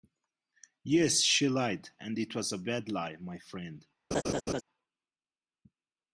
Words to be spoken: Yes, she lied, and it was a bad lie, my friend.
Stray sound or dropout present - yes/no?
yes